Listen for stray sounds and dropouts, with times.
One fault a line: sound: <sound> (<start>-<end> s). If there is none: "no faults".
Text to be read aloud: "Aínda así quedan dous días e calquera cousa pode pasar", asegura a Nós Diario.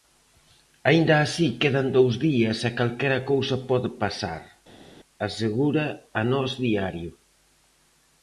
no faults